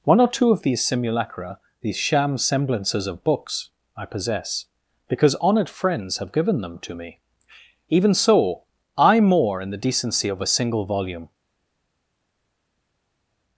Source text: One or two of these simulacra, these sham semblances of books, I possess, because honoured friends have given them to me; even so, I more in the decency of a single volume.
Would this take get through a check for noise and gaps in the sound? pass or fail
pass